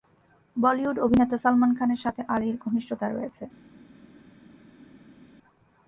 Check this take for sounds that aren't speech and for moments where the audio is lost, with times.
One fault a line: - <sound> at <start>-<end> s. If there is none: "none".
none